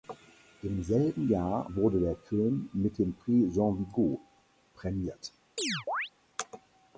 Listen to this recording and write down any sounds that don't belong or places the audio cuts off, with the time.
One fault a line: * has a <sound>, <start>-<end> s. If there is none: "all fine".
* has a chirp, 5.6-6.1 s